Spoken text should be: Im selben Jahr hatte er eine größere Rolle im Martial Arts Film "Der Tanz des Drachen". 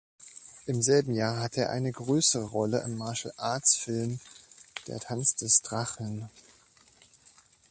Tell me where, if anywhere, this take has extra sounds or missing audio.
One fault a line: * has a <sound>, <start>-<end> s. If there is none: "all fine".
all fine